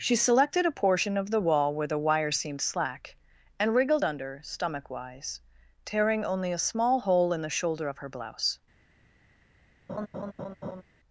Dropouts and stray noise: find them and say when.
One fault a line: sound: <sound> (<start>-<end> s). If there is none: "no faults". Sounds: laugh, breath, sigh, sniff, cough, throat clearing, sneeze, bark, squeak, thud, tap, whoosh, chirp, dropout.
sound: laugh (9.9-10.8 s)